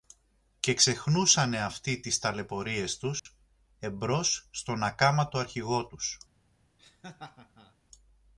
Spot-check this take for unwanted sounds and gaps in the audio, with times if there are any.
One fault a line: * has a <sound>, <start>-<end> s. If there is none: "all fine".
* has a dropout, 3.2-3.3 s
* has a laugh, 6.8-7.8 s